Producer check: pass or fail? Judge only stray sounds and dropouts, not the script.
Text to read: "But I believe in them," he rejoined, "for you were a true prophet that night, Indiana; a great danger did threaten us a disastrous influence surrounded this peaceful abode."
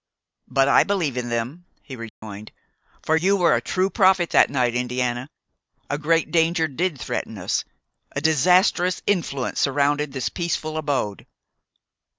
fail